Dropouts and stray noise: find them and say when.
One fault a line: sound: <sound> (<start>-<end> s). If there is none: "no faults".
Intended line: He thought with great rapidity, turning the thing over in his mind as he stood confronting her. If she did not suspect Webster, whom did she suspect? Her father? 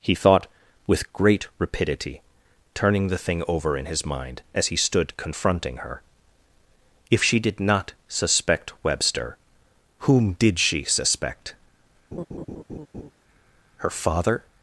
sound: laugh (12.1-13.1 s)